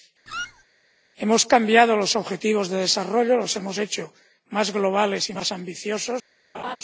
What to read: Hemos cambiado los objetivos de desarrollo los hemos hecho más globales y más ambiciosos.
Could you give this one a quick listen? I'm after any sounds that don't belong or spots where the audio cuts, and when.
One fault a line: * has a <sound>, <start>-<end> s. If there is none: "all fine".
* has a squeak, 0.3-0.6 s
* has a laugh, 6.5-6.8 s